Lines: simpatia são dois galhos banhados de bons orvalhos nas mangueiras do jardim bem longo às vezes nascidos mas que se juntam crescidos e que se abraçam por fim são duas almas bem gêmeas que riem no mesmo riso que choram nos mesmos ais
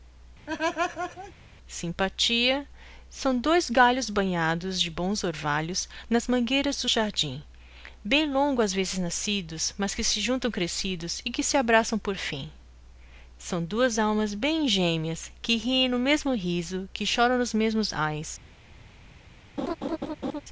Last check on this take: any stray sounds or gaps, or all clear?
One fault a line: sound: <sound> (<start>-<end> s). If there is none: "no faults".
sound: laugh (0.5-1.3 s)
sound: laugh (19.6-20.4 s)